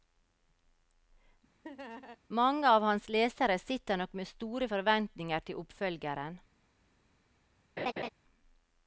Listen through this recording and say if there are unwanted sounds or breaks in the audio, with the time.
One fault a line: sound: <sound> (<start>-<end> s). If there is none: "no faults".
sound: laugh (1.6-2.2 s)
sound: laugh (7.8-8.1 s)